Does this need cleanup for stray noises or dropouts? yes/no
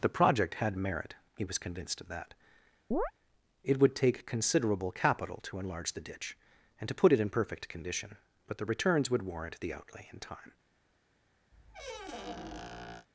yes